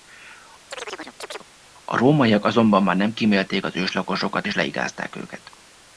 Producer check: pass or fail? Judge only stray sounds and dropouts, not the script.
fail